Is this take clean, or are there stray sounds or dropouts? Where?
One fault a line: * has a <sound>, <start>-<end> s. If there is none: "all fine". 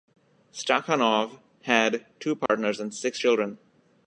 * has a dropout, 2.5-2.5 s